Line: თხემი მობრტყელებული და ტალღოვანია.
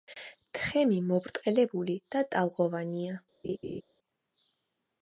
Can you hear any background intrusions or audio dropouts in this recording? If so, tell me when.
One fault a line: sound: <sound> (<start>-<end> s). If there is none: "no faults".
sound: laugh (3.4-3.8 s)